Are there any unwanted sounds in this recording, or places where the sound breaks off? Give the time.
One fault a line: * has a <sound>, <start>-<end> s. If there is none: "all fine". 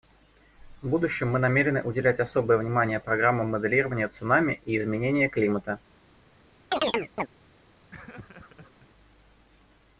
* has a chirp, 6.7-7.3 s
* has a laugh, 7.9-8.9 s